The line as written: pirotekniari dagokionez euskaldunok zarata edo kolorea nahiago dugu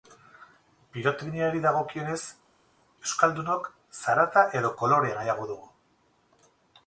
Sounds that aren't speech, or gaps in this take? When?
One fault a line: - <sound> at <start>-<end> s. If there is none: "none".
none